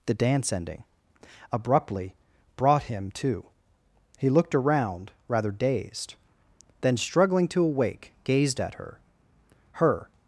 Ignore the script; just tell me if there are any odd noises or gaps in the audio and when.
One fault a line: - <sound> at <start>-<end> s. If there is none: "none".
none